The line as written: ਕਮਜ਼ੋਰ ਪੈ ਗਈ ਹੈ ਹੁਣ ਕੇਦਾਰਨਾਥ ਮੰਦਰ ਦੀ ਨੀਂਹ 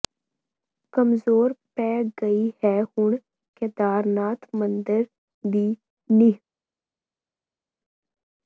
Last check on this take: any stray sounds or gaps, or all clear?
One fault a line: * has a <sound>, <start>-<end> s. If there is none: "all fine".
all fine